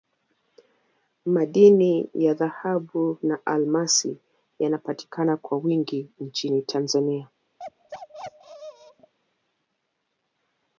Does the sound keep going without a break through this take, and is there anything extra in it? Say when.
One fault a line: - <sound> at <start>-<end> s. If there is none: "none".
- bark at 7.6-9.1 s